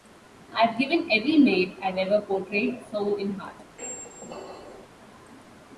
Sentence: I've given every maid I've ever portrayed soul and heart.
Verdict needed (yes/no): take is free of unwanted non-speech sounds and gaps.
no